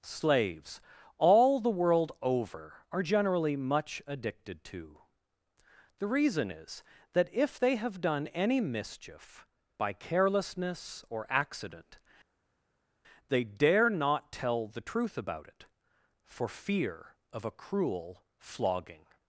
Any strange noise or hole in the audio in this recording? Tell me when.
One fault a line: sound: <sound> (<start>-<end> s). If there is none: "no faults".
no faults